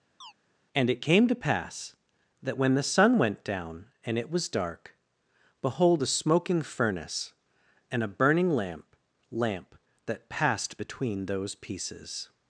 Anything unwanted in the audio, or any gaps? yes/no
yes